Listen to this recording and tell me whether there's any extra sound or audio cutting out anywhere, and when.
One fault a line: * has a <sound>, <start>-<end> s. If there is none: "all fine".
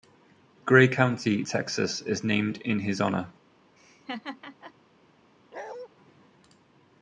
* has a laugh, 3.8-4.7 s
* has a bark, 5.5-5.9 s